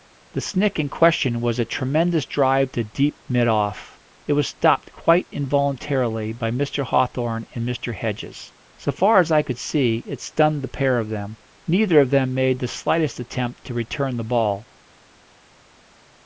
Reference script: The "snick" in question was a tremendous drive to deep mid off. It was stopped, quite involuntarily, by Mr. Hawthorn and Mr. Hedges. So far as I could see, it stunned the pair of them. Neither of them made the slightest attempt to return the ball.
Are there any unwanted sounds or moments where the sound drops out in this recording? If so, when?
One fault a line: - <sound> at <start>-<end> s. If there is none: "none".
none